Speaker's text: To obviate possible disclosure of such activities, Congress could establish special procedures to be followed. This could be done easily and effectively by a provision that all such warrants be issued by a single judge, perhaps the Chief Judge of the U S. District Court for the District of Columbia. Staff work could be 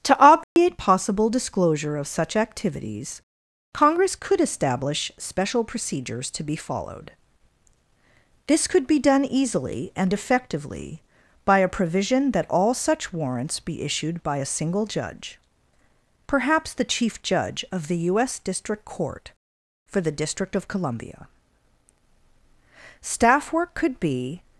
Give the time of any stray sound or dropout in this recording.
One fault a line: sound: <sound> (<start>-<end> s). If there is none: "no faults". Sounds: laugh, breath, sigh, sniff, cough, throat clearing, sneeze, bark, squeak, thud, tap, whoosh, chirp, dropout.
sound: dropout (0.4-0.6 s)